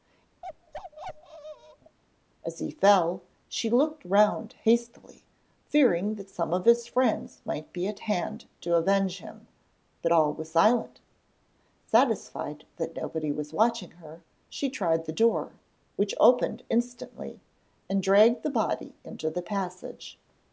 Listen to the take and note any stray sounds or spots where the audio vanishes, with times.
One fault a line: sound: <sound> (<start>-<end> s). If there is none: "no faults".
sound: bark (0.4-2.0 s)